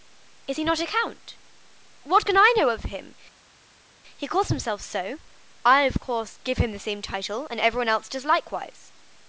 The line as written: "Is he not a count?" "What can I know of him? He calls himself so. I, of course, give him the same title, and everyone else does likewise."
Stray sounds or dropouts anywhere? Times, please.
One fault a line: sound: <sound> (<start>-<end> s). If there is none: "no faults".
no faults